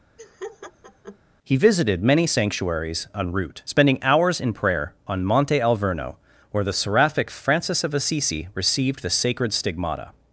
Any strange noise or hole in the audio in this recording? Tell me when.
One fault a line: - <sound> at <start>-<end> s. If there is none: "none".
- laugh at 0.2-1.2 s